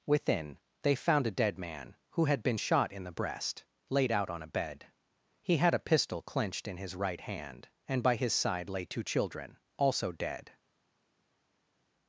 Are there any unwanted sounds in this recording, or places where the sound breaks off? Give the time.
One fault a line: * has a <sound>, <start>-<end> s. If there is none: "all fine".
all fine